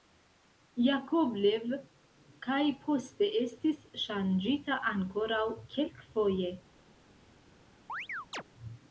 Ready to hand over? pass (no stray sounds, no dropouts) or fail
fail